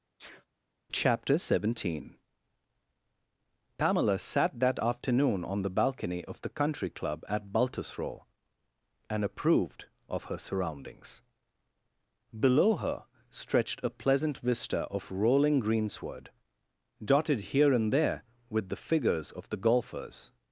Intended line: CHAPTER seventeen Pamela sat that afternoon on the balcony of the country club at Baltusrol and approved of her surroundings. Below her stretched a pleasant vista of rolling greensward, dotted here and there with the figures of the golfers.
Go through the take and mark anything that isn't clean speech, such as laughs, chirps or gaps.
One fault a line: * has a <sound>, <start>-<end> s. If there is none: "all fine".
* has a sneeze, 0.2-0.5 s